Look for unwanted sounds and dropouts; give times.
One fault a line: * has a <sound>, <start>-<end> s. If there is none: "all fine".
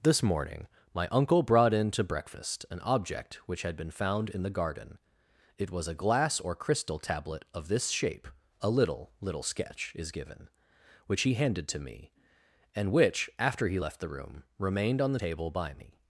all fine